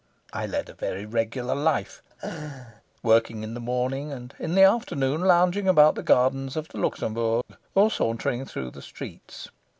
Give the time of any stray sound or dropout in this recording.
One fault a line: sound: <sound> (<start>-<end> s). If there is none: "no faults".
sound: laugh (2.1-2.8 s)
sound: dropout (7.4-7.5 s)